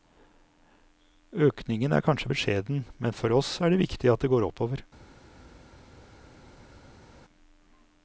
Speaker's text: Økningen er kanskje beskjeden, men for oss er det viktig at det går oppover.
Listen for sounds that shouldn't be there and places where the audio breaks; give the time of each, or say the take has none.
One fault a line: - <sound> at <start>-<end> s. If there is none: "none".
none